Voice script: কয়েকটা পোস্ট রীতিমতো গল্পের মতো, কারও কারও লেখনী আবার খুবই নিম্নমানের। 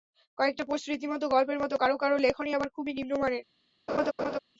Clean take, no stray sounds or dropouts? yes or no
no